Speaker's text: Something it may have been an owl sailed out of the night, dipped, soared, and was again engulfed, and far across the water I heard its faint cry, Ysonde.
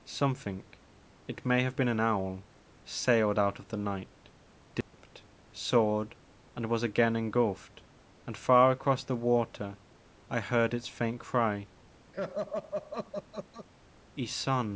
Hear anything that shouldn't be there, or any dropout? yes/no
yes